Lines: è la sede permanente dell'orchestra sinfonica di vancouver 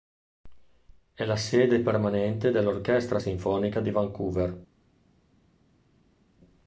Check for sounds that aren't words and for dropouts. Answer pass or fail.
pass